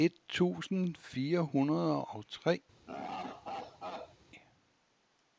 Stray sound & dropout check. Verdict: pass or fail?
fail